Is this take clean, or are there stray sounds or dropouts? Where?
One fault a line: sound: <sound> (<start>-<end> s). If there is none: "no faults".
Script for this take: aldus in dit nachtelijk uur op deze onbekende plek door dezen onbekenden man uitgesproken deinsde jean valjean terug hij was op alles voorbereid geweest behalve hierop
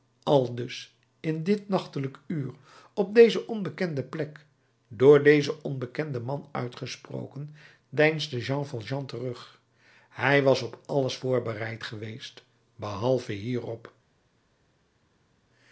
no faults